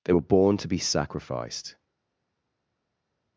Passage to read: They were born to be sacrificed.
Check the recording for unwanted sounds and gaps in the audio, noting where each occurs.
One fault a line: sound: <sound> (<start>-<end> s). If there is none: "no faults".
no faults